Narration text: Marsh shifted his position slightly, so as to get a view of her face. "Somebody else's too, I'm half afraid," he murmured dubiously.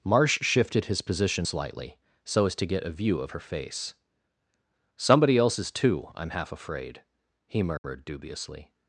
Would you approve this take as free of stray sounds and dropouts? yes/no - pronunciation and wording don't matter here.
no